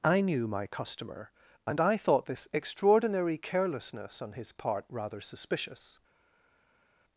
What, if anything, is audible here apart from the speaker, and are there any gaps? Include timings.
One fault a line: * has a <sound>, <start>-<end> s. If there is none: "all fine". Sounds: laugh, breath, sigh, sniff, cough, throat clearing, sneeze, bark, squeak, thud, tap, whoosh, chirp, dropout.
all fine